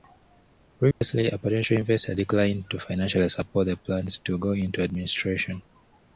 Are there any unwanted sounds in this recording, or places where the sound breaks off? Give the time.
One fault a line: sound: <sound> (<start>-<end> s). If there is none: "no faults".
sound: dropout (0.9-1.0 s)